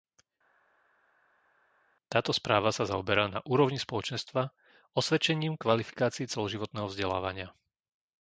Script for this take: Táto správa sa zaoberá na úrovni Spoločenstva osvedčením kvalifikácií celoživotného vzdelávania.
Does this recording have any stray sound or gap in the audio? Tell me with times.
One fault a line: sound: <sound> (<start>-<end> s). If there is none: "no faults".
no faults